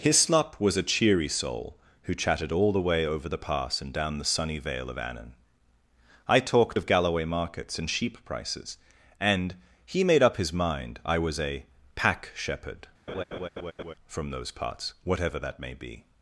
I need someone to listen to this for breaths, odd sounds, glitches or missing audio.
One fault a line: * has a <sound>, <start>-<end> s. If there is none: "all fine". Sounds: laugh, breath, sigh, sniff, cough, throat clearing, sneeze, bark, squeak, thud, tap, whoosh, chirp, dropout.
* has a laugh, 13.1-13.9 s